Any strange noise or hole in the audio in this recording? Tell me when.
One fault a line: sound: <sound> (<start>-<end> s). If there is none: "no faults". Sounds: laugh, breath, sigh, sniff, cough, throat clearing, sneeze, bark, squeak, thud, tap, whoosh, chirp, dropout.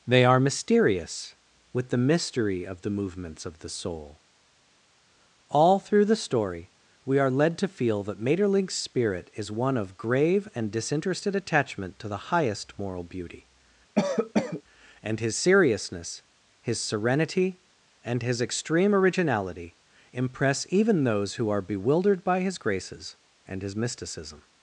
sound: cough (14.0-14.6 s)